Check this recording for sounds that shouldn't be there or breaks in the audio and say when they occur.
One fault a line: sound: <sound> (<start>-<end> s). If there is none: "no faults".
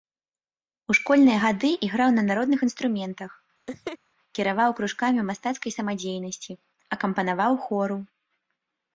sound: laugh (3.7-4.0 s)